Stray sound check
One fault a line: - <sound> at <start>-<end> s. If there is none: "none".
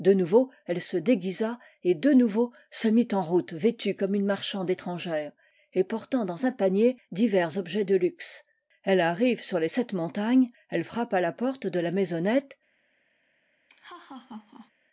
- laugh at 13.7-14.7 s